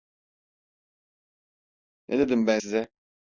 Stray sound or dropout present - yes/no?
no